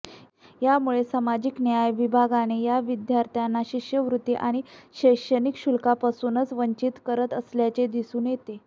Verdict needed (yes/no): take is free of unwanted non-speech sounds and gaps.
yes